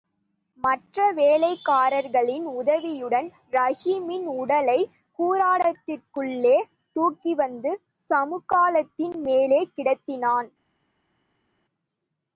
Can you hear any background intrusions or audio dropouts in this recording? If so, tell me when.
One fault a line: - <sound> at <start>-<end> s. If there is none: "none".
none